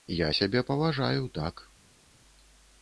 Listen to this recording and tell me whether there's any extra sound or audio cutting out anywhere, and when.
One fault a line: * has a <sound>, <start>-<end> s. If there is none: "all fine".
all fine